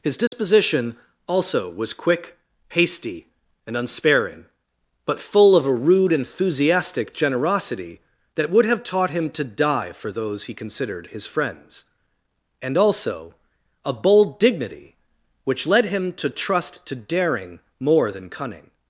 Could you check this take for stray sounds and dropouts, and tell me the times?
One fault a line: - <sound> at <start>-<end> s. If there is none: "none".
- dropout at 0.3-0.3 s